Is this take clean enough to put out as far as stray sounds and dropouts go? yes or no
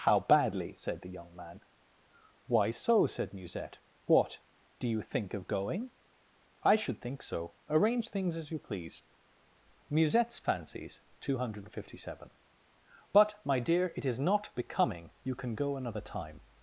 yes